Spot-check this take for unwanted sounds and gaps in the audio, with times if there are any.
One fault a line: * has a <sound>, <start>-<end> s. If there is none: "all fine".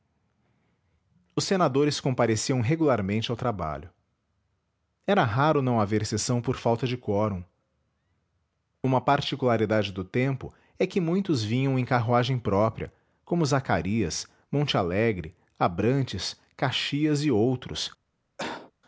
* has a cough, 18.4-18.7 s